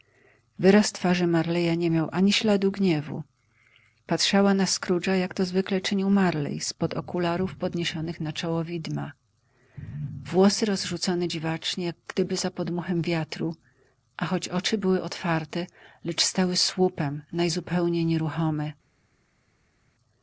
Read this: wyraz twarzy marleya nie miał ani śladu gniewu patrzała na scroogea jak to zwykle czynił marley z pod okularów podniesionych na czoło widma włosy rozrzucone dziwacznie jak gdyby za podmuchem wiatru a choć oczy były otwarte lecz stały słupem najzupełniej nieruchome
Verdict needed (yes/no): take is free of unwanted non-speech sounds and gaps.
yes